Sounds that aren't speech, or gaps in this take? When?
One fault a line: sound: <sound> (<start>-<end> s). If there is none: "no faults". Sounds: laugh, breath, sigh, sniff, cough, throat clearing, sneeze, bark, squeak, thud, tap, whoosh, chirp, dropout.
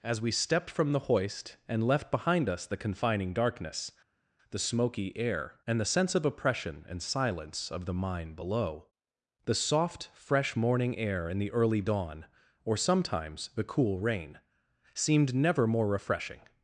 no faults